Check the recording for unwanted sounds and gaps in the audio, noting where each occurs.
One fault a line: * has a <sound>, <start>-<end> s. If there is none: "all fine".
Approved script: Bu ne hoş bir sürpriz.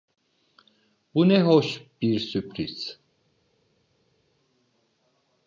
all fine